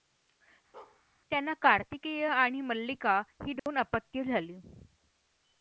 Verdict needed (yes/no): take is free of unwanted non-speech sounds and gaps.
no